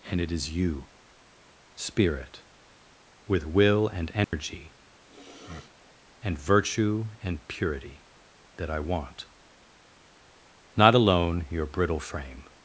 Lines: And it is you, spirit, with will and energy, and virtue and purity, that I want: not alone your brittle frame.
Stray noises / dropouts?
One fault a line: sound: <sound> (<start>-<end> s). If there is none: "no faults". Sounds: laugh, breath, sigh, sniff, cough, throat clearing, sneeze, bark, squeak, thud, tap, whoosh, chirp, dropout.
sound: dropout (4.2-4.3 s)
sound: sniff (5.0-6.0 s)